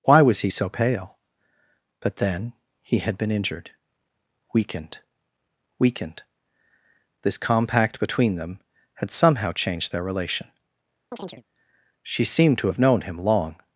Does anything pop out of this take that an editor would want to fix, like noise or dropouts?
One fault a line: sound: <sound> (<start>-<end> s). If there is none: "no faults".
sound: chirp (11.1-11.4 s)